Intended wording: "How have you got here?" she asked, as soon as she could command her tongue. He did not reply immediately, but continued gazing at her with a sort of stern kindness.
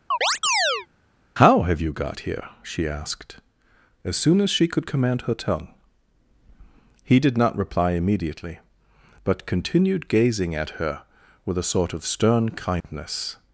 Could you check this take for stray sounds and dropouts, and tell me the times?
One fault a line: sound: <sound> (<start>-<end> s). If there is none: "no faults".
sound: chirp (0.1-0.9 s)
sound: dropout (12.8-12.8 s)